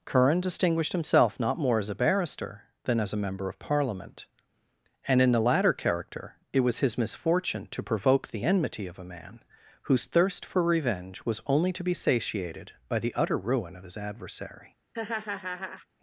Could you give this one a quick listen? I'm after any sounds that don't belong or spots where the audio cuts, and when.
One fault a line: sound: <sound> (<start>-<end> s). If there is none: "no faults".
sound: laugh (14.9-15.9 s)